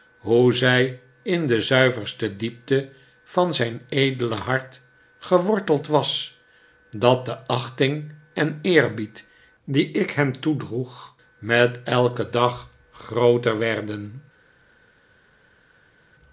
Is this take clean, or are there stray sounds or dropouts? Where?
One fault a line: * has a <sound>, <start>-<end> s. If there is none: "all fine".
all fine